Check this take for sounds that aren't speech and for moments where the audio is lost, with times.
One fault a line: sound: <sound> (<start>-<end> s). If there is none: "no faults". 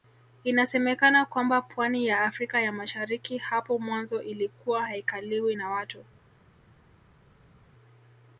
no faults